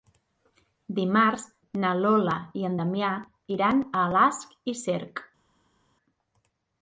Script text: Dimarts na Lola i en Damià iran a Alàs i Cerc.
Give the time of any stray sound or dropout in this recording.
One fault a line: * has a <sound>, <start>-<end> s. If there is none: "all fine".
all fine